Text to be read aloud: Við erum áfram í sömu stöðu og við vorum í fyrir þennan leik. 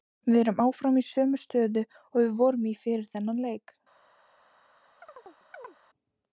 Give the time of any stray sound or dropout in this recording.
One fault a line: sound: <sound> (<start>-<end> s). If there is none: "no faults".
sound: chirp (5.0-5.8 s)